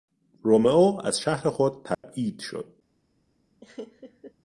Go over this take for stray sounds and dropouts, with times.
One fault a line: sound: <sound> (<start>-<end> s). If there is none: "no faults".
sound: dropout (1.9-2.0 s)
sound: laugh (3.6-4.3 s)